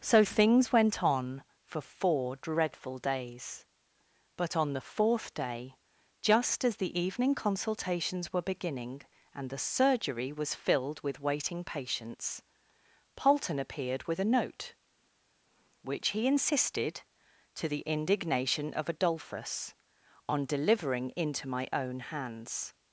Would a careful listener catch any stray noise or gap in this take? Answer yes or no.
no